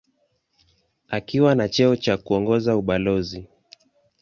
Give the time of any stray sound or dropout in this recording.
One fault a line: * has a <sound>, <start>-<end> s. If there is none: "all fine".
all fine